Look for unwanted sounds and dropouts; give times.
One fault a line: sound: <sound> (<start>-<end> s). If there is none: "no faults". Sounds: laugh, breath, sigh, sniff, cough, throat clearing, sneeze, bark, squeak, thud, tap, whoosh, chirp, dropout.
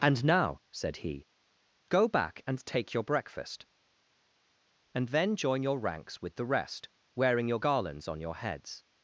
no faults